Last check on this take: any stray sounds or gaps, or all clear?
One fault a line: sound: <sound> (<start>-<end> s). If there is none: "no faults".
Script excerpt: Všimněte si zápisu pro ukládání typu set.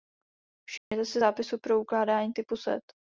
sound: dropout (0.8-0.9 s)